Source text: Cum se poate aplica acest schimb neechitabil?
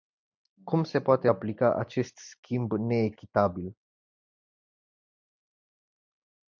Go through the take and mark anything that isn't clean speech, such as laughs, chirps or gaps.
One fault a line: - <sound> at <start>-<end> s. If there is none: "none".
none